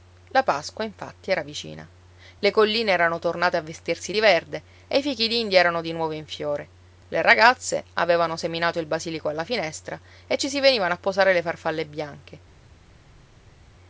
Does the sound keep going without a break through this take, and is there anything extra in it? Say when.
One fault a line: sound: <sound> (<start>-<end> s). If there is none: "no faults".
no faults